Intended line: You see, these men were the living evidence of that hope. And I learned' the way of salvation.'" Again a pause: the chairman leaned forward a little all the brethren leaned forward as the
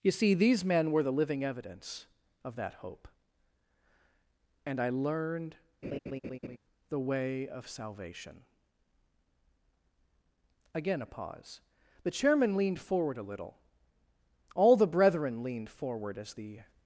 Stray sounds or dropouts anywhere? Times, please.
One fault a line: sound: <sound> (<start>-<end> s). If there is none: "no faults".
sound: laugh (5.8-6.6 s)